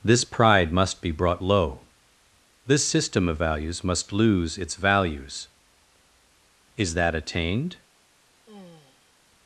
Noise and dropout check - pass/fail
fail